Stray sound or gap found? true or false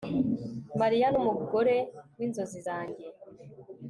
false